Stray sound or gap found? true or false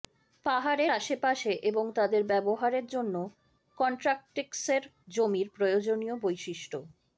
false